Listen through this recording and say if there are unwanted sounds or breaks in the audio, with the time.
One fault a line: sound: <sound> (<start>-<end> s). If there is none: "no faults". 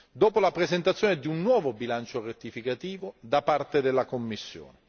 no faults